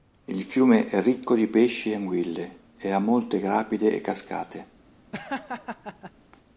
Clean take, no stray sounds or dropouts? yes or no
no